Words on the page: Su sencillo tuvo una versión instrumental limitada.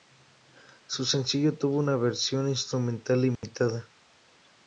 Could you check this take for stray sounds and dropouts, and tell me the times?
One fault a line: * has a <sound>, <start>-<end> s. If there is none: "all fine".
* has a dropout, 3.3-3.4 s